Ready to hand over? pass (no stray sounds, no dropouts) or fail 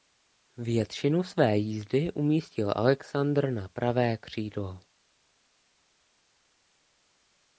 pass